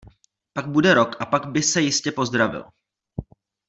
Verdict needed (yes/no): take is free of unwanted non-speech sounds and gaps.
yes